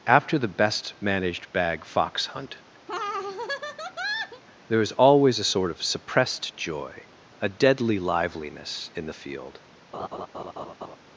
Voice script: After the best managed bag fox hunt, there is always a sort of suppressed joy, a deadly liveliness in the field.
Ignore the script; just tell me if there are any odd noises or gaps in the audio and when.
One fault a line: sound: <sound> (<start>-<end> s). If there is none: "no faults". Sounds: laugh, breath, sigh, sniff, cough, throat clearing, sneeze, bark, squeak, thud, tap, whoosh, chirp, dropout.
sound: laugh (2.9-4.4 s)
sound: laugh (9.9-11.0 s)